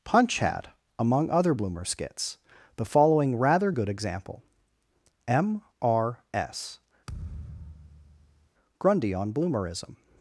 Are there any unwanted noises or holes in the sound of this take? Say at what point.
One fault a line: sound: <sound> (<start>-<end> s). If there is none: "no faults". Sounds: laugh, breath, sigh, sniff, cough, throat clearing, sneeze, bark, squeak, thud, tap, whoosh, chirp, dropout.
sound: thud (7.1-8.5 s)